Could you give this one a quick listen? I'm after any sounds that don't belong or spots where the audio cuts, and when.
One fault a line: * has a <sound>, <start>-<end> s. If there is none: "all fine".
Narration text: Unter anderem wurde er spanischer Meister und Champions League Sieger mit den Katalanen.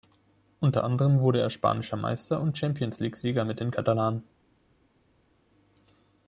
all fine